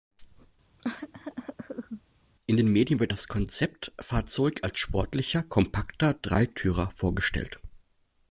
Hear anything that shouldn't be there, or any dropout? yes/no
yes